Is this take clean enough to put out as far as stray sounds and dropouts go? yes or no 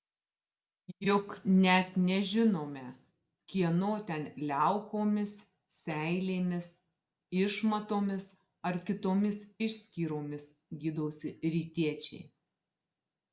yes